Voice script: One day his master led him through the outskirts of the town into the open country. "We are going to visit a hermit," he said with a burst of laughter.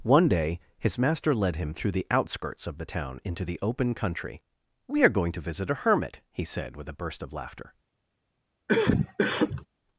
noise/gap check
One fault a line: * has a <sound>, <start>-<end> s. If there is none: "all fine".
* has a cough, 8.7-9.7 s